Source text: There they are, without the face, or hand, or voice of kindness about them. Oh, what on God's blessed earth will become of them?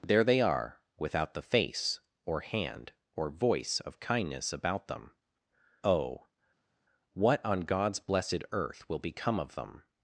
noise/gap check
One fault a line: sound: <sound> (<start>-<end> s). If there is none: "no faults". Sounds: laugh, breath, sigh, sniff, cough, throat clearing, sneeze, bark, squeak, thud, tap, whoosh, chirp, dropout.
no faults